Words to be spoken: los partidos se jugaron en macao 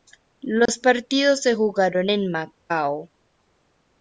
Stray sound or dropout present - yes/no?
yes